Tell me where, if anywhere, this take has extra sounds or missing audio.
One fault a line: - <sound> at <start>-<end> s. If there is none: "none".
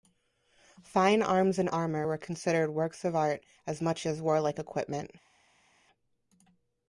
none